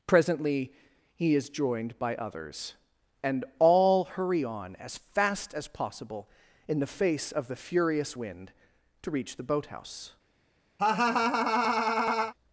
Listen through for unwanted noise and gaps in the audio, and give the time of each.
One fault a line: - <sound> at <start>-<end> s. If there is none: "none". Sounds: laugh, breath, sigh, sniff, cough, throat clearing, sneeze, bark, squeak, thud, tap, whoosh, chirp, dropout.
- laugh at 10.8-12.3 s